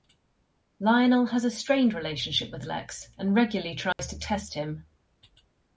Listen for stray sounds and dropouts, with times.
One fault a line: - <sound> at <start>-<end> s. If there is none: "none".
- dropout at 3.9-4.0 s